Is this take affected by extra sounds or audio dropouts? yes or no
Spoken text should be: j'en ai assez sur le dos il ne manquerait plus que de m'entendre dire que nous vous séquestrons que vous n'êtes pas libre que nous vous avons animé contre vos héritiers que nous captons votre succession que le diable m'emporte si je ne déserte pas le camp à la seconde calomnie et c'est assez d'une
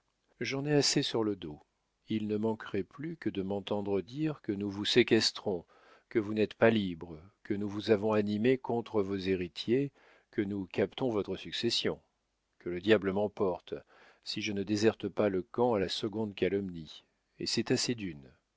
no